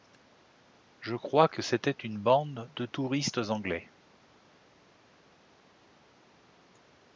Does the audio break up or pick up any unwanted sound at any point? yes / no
no